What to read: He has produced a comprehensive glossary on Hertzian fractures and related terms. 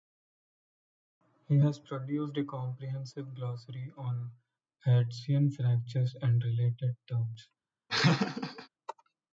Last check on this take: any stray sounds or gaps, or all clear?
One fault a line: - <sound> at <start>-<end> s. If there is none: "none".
- laugh at 7.9-8.7 s